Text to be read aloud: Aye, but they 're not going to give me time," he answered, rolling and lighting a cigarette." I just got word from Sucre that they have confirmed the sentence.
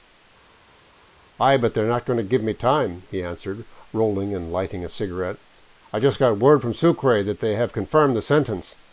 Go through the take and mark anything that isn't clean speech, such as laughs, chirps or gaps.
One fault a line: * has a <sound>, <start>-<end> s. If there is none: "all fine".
all fine